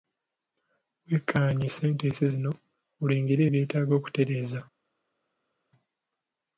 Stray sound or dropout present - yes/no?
no